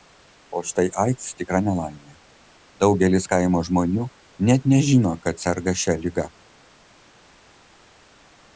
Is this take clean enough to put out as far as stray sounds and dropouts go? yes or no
yes